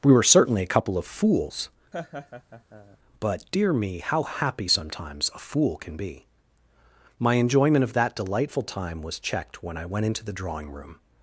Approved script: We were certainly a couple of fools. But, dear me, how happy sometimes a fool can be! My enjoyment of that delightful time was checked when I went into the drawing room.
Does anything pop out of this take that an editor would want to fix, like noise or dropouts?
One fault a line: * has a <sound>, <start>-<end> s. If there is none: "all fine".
* has a laugh, 1.9-3.0 s